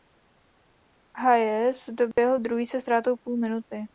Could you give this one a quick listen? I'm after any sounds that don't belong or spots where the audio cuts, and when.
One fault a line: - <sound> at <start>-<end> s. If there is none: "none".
- dropout at 2.1-2.2 s